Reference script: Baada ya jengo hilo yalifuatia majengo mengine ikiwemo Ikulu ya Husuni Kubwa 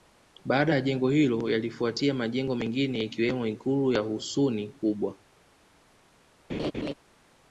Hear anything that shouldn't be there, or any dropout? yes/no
yes